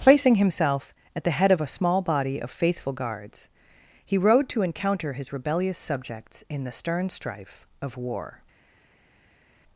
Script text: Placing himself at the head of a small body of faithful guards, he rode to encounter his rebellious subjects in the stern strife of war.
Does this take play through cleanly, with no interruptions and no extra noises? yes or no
yes